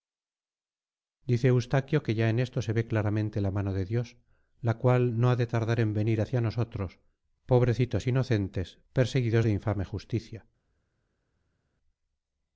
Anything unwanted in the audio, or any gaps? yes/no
no